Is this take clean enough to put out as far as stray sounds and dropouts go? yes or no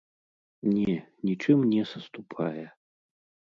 yes